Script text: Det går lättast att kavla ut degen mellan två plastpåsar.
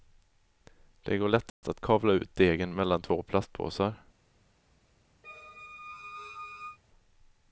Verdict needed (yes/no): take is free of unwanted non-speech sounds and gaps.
no